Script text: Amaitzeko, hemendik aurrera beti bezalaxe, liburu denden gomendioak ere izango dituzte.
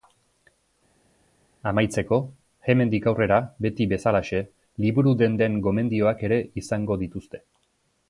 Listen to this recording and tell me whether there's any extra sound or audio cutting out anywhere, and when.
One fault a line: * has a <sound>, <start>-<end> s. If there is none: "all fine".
all fine